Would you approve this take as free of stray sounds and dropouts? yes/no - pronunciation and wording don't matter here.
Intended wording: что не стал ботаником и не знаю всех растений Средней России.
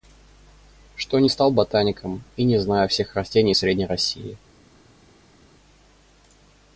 yes